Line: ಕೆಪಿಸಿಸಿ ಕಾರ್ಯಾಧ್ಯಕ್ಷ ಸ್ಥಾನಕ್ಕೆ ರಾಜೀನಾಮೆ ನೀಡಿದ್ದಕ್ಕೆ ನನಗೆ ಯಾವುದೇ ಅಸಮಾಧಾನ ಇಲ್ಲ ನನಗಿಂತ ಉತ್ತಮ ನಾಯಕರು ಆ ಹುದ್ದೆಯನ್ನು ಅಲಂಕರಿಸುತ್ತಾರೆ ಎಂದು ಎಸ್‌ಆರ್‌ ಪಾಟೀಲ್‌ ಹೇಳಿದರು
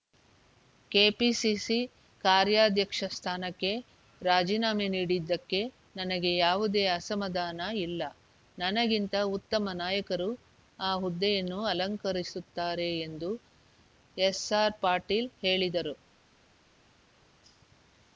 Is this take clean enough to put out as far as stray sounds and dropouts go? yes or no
yes